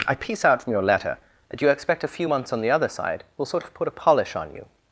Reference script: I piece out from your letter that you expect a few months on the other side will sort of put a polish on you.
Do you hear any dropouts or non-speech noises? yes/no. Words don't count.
no